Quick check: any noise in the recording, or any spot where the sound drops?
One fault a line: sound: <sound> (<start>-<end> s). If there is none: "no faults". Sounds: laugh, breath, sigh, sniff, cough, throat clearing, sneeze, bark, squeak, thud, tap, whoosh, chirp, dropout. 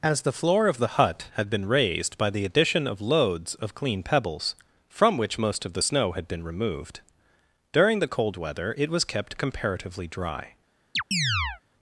sound: chirp (11.0-11.6 s)